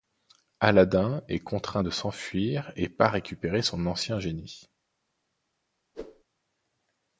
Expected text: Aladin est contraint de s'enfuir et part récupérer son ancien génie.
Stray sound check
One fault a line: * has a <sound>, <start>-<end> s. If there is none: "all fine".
* has a whoosh, 5.9-6.2 s